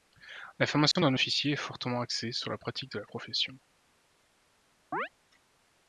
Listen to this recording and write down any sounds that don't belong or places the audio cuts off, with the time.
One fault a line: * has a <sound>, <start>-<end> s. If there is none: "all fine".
* has a dropout, 0.9-1.0 s
* has a chirp, 4.9-5.1 s